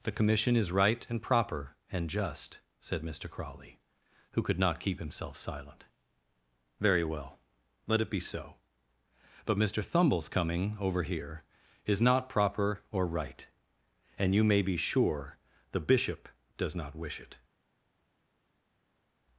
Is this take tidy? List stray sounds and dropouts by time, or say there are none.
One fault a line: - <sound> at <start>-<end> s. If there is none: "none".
none